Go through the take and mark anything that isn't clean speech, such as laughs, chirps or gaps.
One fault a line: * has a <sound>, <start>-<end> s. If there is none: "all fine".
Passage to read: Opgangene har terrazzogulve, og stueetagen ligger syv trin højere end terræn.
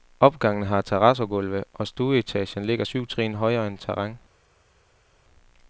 all fine